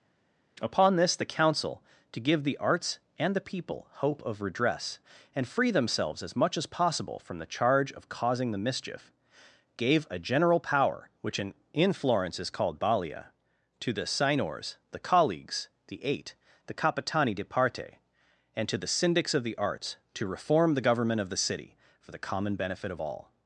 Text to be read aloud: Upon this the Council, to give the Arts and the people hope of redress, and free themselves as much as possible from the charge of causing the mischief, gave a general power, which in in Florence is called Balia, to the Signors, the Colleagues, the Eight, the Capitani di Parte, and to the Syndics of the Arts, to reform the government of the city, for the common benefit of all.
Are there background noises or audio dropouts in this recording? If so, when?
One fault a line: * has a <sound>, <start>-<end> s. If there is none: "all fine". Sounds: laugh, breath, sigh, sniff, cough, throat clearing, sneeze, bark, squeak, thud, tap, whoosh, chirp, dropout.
all fine